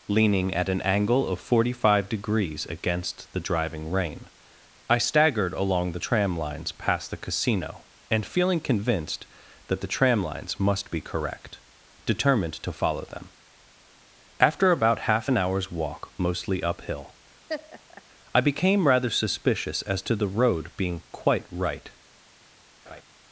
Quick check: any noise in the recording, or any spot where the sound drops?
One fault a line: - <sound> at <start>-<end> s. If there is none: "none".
- laugh at 17.5-18.0 s
- laugh at 22.9-23.0 s